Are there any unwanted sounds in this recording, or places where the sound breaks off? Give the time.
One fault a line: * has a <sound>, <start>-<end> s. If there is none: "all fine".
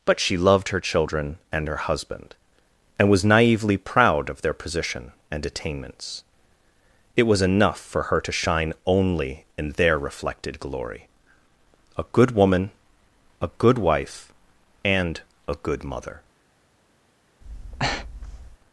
* has a breath, 17.4-18.6 s